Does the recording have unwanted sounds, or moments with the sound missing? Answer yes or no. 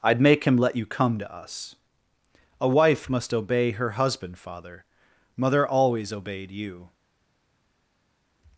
no